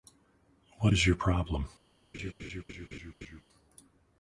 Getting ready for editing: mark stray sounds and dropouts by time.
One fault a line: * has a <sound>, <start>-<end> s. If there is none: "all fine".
* has a laugh, 2.1-3.4 s